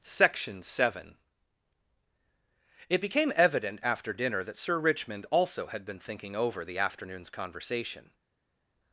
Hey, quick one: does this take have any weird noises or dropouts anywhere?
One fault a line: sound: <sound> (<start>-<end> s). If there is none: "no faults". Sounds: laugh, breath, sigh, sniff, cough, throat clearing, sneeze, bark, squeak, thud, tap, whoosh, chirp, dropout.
no faults